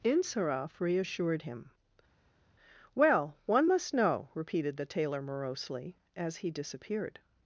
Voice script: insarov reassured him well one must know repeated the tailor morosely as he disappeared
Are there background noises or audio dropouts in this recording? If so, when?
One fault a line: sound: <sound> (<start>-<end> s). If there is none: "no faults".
no faults